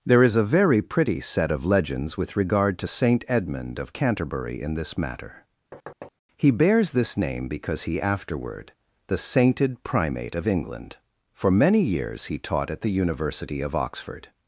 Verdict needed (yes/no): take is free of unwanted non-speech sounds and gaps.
no